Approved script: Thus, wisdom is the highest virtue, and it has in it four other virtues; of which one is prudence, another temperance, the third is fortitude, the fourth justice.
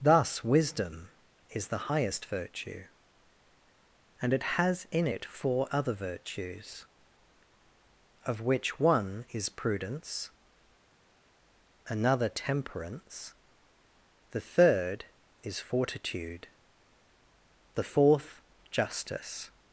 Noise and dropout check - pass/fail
pass